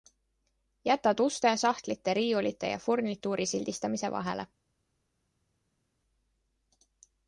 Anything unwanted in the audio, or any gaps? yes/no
no